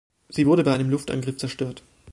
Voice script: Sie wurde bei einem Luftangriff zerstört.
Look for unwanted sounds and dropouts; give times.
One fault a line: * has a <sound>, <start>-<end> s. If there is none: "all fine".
all fine